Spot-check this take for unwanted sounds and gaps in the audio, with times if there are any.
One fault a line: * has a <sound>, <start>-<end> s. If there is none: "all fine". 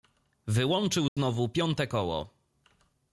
* has a dropout, 1.1-1.2 s